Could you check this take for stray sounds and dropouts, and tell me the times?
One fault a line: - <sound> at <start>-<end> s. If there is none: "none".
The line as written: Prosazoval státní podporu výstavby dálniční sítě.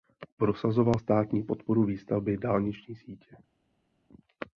none